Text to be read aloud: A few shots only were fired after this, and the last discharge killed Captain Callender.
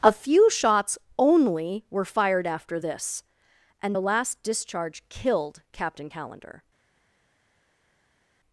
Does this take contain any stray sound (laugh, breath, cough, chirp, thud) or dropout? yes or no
no